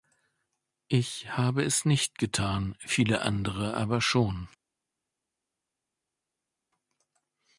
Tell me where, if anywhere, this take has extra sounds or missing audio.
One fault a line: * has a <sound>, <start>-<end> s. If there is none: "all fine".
all fine